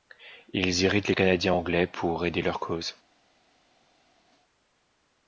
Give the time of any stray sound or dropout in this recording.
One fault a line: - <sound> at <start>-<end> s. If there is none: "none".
none